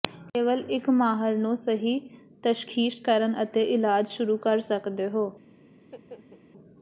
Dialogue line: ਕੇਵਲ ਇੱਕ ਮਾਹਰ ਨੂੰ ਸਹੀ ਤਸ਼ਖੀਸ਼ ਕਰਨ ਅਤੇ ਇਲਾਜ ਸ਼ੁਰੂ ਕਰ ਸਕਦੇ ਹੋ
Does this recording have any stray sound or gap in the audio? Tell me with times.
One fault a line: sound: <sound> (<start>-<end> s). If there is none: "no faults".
sound: laugh (5.8-6.4 s)